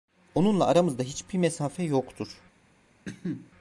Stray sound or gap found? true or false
true